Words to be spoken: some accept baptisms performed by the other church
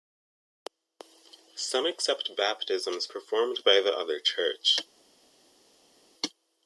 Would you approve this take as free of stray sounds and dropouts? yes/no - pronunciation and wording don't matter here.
yes